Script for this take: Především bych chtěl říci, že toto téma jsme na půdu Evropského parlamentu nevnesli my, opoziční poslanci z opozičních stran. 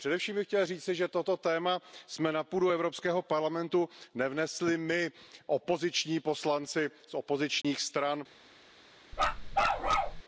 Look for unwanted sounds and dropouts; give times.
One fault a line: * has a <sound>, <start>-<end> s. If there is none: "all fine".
* has a dropout, 7.6-7.6 s
* has a bark, 9.1-10.2 s